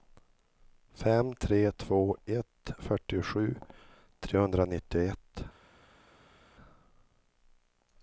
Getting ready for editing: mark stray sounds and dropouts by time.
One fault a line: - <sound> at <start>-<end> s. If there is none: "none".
none